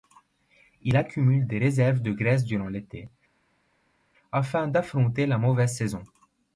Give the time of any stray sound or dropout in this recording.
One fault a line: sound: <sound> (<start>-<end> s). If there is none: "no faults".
no faults